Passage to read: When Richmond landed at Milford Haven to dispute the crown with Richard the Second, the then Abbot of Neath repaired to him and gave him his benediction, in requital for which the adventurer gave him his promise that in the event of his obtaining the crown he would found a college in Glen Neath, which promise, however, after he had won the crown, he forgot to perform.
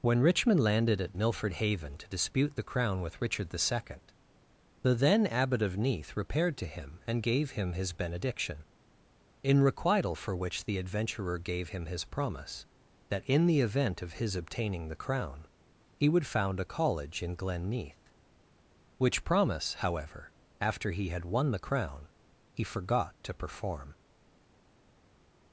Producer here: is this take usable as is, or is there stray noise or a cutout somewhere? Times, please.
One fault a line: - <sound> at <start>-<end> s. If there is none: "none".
none